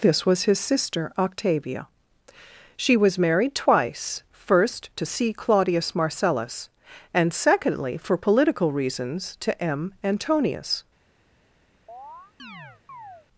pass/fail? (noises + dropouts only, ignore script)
fail